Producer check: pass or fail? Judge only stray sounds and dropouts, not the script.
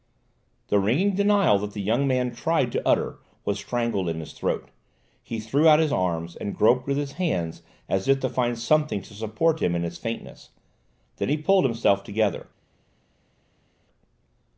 pass